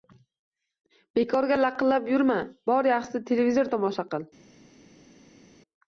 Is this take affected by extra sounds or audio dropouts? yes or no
no